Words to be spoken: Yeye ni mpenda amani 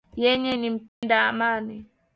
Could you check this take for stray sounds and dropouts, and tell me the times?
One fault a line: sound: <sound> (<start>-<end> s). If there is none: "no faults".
sound: dropout (0.9-1.0 s)